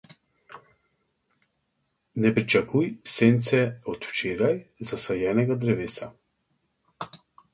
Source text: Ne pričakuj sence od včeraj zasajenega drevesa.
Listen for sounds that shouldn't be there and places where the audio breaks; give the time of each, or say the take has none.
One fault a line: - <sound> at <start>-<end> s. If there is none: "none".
none